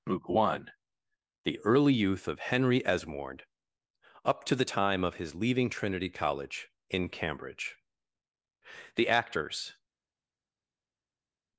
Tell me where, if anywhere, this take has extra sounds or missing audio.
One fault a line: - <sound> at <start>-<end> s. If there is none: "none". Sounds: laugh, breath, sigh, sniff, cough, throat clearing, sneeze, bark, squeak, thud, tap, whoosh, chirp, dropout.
none